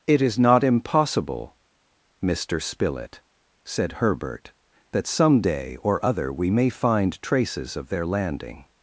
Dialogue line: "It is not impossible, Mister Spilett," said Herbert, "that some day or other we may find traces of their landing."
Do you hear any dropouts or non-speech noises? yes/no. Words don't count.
no